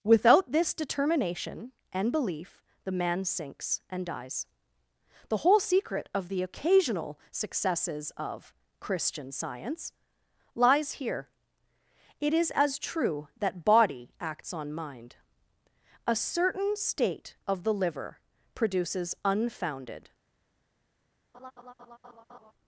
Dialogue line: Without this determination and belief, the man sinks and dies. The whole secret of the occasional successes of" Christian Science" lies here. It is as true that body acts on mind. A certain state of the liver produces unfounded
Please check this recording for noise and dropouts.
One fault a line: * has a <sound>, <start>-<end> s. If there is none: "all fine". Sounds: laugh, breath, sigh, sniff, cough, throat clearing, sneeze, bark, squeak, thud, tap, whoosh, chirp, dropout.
* has a laugh, 21.3-22.5 s